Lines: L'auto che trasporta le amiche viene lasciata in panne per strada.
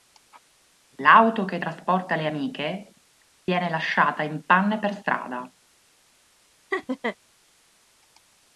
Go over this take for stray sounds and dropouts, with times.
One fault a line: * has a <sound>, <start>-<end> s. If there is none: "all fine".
* has a dropout, 3.4-3.5 s
* has a laugh, 6.7-7.2 s